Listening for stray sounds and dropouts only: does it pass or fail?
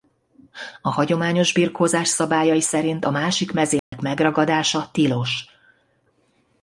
fail